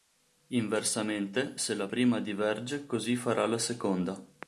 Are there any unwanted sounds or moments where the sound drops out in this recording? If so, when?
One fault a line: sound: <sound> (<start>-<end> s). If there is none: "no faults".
no faults